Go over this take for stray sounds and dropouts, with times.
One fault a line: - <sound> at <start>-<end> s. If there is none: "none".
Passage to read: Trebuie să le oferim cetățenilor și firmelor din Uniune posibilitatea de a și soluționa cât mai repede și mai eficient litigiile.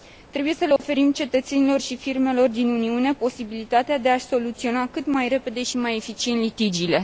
- dropout at 0.8-0.8 s